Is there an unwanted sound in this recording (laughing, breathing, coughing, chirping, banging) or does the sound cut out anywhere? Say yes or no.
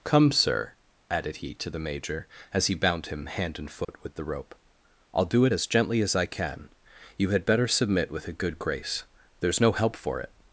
yes